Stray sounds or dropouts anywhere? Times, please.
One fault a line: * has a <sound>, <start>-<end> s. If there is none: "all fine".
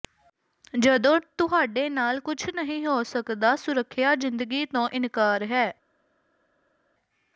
all fine